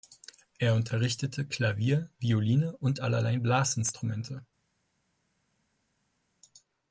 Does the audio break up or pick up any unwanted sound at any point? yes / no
no